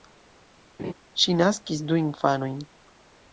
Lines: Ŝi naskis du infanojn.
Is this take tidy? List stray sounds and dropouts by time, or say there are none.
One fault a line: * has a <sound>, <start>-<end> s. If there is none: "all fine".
* has a laugh, 0.8-0.9 s